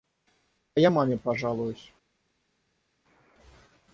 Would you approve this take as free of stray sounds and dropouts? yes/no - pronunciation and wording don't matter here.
yes